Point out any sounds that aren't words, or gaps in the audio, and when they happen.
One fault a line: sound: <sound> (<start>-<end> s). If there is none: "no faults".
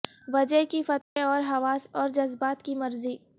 sound: dropout (1.0-1.2 s)